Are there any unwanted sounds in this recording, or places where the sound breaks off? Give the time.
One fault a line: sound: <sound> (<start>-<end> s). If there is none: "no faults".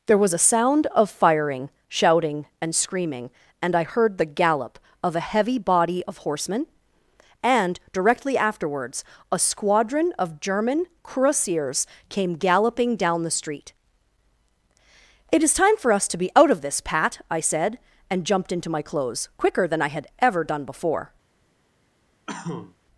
sound: cough (22.3-22.8 s)